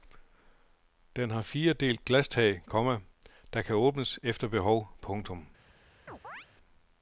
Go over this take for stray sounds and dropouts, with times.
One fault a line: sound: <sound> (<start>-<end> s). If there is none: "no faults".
sound: chirp (6.1-6.5 s)